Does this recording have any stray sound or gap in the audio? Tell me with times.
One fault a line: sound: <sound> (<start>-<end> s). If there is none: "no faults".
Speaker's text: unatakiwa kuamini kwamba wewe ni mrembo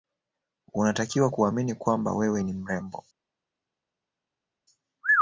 no faults